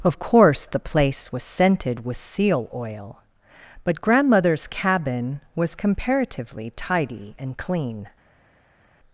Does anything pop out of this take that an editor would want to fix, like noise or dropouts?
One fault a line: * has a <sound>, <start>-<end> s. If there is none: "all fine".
all fine